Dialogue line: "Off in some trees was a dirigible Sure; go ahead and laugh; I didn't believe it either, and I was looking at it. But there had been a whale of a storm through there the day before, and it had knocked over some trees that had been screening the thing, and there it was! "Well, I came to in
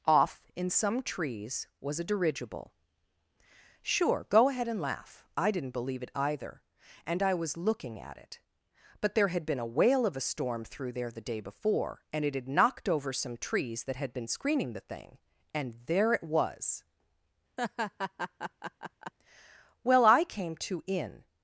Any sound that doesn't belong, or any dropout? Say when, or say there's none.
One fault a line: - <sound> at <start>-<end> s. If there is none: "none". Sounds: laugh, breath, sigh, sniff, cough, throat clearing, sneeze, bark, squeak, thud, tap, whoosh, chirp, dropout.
- laugh at 17.6-19.1 s